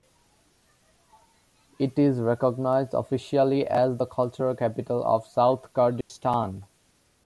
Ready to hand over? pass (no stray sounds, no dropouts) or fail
fail